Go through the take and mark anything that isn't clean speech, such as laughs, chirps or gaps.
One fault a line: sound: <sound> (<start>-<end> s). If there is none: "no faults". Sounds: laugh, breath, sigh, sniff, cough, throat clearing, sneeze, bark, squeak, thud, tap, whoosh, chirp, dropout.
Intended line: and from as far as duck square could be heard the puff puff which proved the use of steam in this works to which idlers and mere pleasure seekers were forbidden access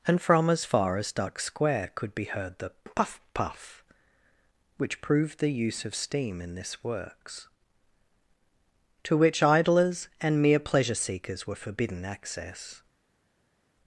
no faults